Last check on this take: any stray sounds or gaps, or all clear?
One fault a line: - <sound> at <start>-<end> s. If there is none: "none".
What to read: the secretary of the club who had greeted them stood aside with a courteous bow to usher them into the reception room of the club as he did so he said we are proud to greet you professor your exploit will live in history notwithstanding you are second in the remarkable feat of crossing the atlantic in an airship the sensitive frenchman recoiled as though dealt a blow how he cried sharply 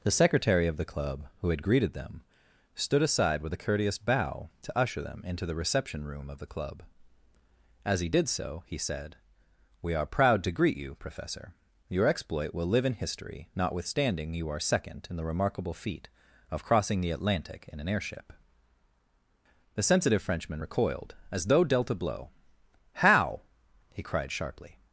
none